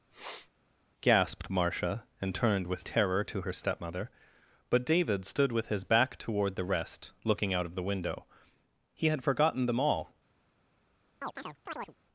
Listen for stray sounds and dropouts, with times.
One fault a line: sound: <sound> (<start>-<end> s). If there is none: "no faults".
sound: sniff (0.1-0.5 s)
sound: chirp (11.2-12.0 s)